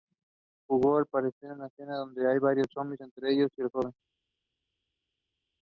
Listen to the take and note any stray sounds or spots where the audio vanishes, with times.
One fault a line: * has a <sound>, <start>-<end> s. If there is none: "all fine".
all fine